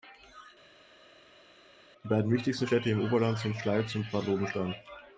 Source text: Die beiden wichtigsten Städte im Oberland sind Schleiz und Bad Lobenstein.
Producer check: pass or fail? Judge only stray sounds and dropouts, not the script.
pass